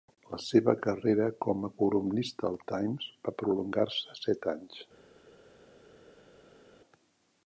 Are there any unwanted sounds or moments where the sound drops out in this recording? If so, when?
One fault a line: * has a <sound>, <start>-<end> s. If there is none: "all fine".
all fine